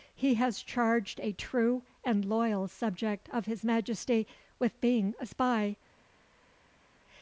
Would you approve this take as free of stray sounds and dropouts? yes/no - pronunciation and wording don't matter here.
yes